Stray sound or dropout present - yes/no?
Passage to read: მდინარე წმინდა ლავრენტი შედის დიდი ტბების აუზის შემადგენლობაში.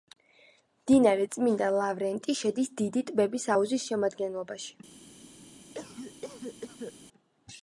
yes